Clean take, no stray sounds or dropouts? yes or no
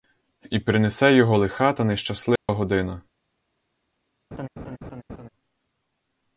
no